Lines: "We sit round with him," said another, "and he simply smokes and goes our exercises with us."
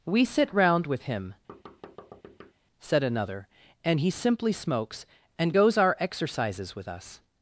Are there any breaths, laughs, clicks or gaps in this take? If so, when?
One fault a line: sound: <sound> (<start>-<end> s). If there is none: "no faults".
sound: thud (1.5-2.5 s)